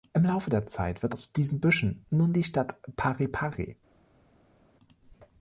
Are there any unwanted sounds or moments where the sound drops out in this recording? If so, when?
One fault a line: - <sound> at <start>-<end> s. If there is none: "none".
none